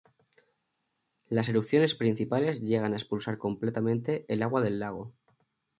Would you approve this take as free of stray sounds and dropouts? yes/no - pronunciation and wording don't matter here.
yes